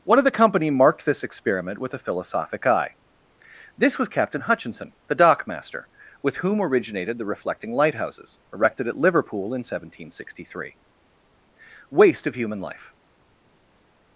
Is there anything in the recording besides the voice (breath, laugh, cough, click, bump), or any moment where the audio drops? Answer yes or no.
no